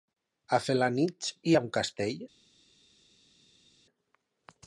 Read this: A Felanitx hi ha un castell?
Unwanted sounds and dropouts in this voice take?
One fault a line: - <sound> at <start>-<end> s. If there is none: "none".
none